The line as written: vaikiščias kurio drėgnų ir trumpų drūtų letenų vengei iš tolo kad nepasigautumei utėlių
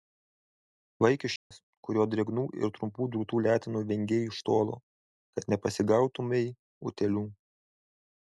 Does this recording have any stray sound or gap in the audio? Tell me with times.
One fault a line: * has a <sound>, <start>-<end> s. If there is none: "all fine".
* has a dropout, 1.4-1.5 s